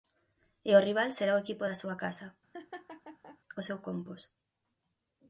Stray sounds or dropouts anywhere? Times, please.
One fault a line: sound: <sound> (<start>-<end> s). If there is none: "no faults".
sound: laugh (2.5-3.4 s)